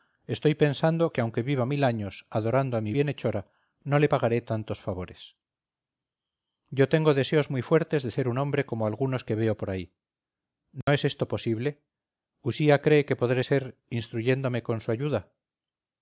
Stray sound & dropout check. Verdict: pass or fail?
fail